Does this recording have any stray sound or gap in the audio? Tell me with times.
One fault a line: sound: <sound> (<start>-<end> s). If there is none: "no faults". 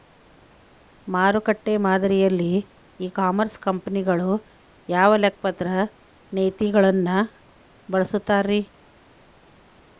no faults